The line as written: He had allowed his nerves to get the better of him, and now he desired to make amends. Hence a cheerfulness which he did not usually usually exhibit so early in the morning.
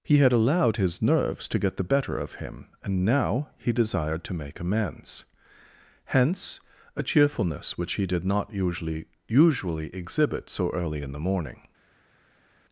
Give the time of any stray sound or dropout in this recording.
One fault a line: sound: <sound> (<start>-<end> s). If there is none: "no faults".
no faults